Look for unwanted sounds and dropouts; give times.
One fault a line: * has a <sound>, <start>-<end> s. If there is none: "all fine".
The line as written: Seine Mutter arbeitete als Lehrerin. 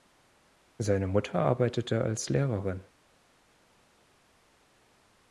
all fine